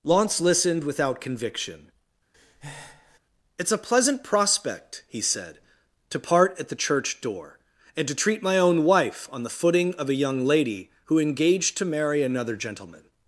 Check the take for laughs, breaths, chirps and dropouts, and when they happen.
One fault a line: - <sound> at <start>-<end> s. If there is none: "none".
- breath at 2.3-3.2 s